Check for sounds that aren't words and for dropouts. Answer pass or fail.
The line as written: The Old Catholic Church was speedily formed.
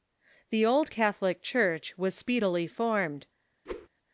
fail